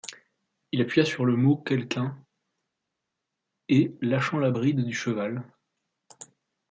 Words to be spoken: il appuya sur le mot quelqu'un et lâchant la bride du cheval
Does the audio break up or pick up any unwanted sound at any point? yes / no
no